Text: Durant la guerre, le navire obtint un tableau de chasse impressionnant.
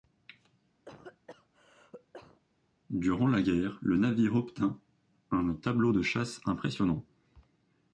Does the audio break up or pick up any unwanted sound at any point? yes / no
yes